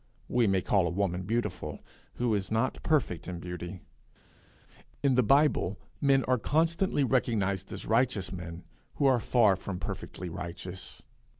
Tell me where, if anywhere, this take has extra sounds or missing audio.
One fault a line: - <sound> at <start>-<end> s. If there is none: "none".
none